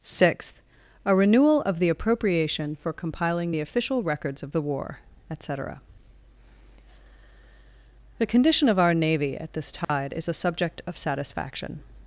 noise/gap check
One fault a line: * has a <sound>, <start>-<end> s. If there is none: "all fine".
* has a dropout, 9.8-9.9 s